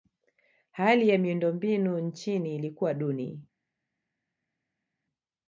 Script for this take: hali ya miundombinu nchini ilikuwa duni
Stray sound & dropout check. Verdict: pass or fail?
pass